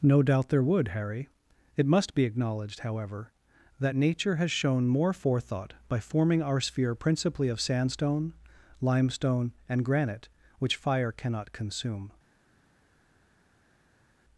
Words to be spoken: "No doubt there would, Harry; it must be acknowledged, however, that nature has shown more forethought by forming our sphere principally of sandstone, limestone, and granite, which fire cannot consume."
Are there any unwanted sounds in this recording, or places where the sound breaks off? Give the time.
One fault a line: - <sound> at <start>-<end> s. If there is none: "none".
none